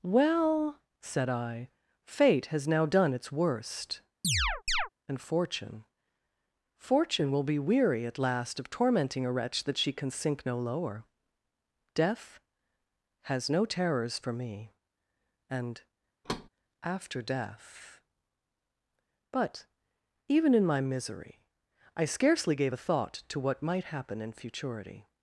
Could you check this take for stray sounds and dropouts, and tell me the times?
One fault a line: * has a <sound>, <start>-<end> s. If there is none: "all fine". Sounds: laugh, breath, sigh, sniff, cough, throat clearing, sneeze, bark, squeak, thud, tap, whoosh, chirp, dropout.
* has a chirp, 4.2-4.9 s
* has a thud, 16.2-16.5 s